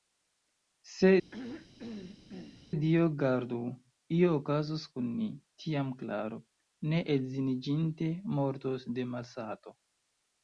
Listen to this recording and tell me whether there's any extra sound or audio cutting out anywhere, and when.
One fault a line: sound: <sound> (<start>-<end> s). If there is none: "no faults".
sound: throat clearing (1.3-2.7 s)